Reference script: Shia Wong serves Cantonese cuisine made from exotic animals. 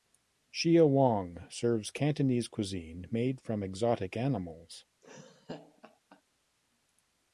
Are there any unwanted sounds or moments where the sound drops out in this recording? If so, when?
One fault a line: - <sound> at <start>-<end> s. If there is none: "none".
- laugh at 5.0-6.2 s